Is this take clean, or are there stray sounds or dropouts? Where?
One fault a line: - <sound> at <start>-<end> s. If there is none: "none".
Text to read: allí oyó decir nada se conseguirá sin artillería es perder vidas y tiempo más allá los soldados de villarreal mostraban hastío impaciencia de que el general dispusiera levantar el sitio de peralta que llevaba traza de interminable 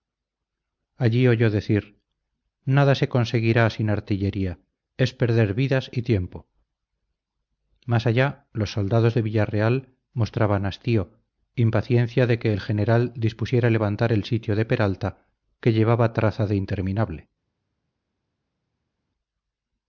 none